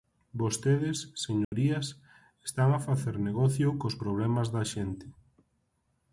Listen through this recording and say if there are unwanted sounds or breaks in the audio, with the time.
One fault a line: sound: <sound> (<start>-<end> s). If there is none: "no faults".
sound: dropout (1.4-1.5 s)